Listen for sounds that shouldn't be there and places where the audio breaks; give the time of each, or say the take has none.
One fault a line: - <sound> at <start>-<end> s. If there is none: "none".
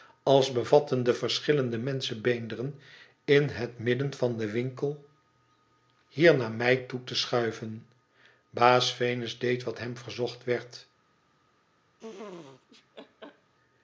- laugh at 12.0-13.5 s